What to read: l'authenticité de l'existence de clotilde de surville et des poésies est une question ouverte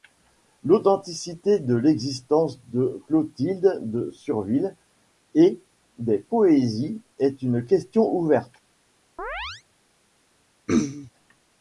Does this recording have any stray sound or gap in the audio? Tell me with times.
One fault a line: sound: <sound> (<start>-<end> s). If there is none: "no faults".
sound: chirp (9.2-9.6 s)
sound: throat clearing (10.7-11.1 s)